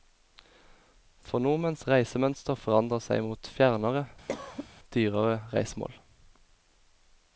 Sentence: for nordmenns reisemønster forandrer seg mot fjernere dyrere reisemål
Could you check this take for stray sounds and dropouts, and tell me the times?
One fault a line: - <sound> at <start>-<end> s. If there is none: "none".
- cough at 4.3-4.7 s